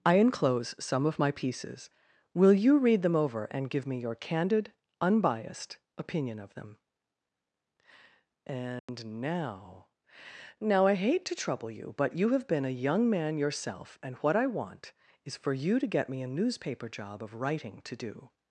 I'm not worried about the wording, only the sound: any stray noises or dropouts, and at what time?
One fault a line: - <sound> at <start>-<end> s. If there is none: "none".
- dropout at 8.8-8.9 s